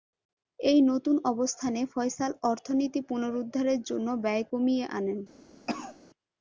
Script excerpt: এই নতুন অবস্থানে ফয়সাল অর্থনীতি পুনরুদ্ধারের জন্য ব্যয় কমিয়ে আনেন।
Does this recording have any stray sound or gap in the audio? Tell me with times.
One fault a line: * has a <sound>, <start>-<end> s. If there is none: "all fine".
* has a cough, 5.7-6.0 s